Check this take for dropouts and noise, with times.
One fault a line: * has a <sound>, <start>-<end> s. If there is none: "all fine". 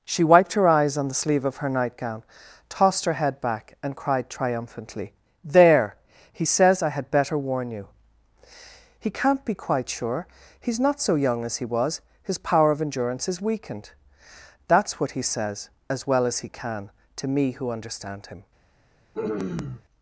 * has a throat clearing, 19.1-19.8 s